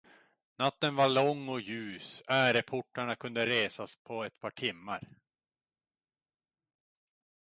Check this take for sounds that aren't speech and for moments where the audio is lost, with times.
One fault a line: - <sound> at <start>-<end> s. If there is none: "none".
none